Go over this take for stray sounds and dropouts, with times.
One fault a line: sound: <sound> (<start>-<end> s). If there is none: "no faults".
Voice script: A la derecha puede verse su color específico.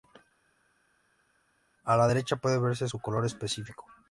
no faults